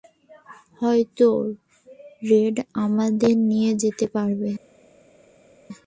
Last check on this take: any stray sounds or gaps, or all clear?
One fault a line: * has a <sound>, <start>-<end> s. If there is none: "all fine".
all fine